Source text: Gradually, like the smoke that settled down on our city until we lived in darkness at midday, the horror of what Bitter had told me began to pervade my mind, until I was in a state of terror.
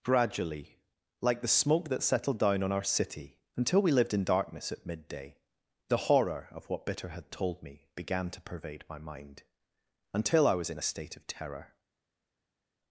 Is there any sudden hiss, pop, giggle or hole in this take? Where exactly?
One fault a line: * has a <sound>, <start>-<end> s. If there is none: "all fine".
all fine